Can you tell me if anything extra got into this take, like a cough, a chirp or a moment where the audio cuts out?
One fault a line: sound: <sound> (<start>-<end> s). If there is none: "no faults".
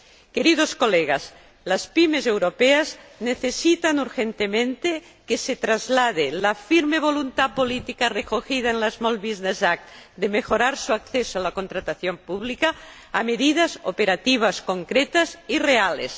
no faults